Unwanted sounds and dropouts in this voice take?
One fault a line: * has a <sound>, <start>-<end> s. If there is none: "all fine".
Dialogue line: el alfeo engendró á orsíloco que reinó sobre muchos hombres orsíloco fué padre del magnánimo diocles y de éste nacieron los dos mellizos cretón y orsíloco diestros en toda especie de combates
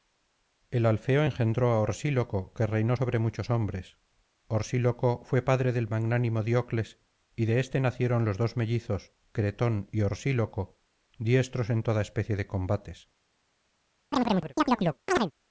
* has a chirp, 14.1-15.3 s